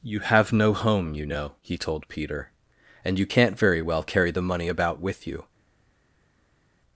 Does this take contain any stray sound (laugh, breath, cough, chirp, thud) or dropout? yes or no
no